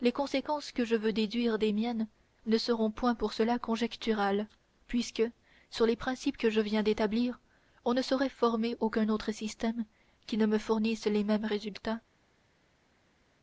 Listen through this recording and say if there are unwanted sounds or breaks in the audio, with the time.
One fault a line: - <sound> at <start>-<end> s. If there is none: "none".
none